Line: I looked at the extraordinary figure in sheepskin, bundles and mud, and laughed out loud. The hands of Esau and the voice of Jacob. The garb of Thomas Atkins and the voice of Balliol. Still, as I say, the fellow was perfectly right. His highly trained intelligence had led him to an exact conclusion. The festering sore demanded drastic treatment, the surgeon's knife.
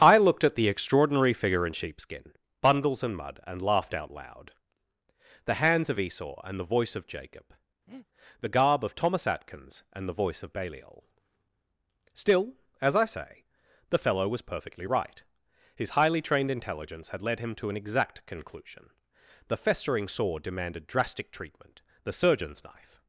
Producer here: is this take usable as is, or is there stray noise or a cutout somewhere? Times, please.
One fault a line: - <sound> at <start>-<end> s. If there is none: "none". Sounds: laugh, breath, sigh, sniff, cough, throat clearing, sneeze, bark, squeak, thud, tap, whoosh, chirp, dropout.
- breath at 7.9-8.1 s